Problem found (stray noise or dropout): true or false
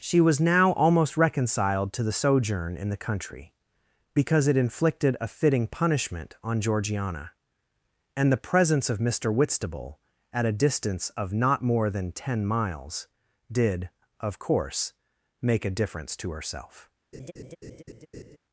true